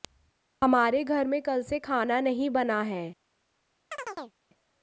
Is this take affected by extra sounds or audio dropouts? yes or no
yes